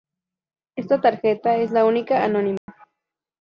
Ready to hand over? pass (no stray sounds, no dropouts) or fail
fail